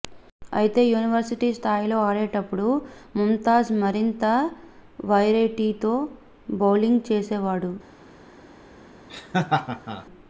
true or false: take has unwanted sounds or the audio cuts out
true